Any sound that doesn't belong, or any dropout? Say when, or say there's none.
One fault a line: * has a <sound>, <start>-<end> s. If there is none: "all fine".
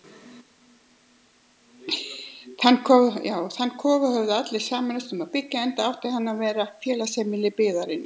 all fine